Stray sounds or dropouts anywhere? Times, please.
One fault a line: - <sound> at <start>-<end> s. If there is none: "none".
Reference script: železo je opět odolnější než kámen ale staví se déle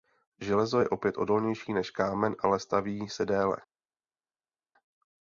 none